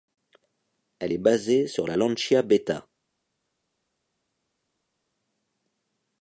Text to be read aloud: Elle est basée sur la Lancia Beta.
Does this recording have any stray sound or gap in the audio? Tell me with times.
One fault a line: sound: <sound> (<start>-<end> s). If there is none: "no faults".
no faults